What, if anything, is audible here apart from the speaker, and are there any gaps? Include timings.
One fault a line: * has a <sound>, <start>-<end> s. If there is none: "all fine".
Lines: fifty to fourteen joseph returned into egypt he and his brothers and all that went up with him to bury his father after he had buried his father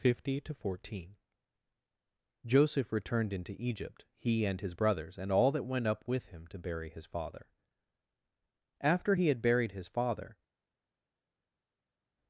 all fine